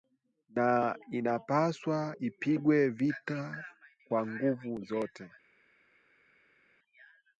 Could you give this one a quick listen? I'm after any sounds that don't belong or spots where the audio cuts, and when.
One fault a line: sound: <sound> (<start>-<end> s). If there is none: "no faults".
no faults